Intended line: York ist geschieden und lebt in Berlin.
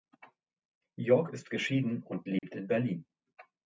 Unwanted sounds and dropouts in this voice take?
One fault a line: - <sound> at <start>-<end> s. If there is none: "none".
- dropout at 2.4-2.4 s